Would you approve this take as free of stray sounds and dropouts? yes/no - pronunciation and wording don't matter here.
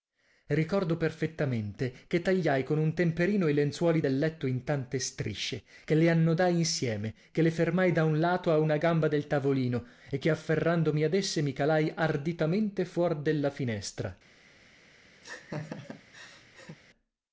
no